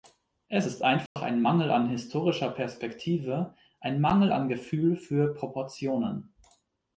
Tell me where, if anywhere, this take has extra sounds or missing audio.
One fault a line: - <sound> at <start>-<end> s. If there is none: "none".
- dropout at 1.1-1.2 s